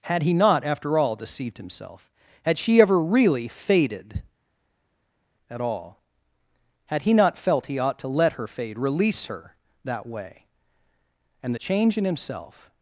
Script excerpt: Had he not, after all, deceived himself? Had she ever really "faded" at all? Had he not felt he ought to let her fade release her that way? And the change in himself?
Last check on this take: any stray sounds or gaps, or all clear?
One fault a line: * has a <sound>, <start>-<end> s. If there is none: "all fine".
all fine